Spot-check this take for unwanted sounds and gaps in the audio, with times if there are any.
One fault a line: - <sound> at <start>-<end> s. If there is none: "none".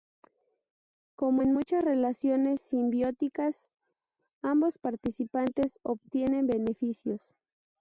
none